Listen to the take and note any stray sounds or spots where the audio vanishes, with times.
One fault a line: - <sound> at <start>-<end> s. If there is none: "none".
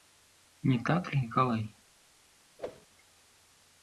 - whoosh at 2.6-2.9 s